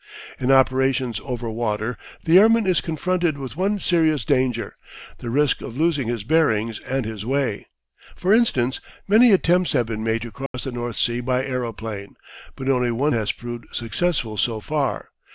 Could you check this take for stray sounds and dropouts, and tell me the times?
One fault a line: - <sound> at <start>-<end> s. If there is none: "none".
- dropout at 10.5-10.5 s